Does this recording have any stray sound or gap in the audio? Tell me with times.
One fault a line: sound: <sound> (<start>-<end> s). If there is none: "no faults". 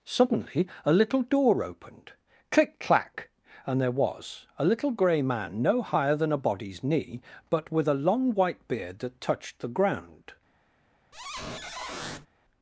sound: squeak (11.1-12.3 s)